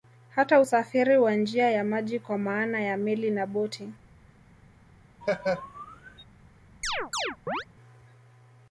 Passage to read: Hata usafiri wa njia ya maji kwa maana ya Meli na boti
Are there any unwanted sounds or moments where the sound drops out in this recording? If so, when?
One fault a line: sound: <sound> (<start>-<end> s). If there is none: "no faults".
sound: laugh (5.2-6.2 s)
sound: chirp (6.8-7.7 s)